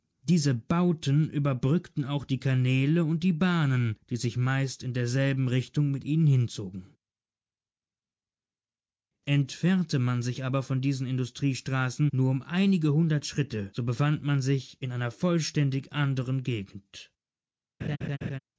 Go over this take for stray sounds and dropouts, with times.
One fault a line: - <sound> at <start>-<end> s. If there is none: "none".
- laugh at 17.8-18.4 s